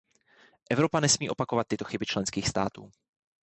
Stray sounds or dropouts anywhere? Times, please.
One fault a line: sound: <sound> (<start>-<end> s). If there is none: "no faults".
no faults